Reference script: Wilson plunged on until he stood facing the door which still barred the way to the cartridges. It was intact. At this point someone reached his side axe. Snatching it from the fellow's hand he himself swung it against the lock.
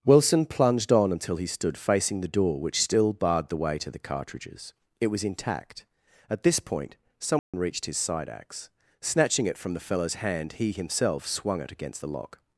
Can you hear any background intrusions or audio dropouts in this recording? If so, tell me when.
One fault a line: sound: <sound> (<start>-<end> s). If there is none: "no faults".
sound: dropout (7.4-7.5 s)